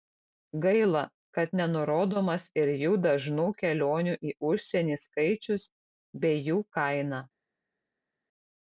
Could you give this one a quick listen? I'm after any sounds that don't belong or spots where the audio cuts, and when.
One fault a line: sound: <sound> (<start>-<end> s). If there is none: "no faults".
no faults